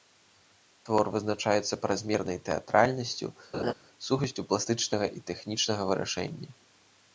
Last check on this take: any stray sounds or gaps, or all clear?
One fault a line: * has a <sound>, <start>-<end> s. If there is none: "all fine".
* has a laugh, 3.5-3.7 s